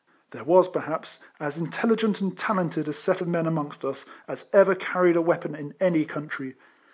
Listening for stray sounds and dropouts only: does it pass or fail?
pass